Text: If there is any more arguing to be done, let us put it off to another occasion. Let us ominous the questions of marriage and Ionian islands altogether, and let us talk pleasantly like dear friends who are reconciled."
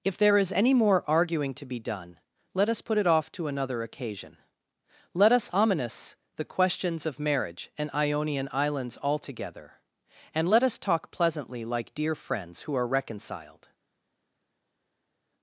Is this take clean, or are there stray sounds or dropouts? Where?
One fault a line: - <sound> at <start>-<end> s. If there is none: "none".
none